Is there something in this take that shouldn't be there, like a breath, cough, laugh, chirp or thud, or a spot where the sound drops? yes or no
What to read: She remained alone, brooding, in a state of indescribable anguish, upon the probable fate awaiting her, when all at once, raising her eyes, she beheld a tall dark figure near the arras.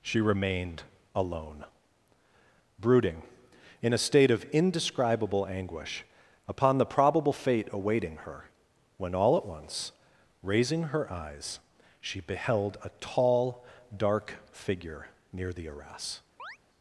yes